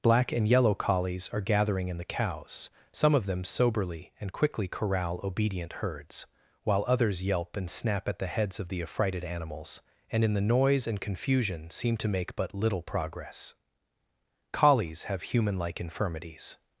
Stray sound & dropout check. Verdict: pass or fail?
pass